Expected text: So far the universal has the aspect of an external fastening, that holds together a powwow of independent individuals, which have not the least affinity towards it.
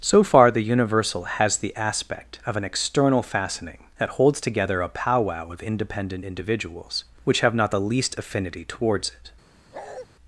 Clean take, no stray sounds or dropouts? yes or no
no